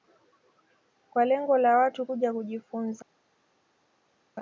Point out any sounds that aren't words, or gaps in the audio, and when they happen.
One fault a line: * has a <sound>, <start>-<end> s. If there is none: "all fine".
all fine